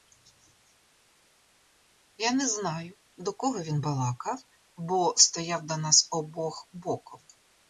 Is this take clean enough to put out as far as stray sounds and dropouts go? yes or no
yes